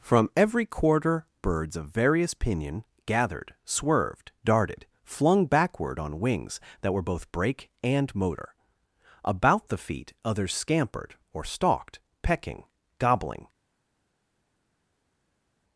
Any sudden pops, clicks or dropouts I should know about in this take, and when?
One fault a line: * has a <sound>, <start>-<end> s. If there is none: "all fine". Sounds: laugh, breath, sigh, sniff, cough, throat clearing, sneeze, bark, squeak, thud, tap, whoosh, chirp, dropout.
all fine